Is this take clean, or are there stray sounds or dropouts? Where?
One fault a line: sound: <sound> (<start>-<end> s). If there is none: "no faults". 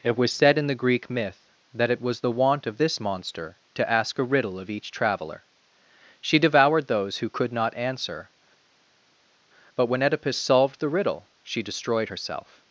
no faults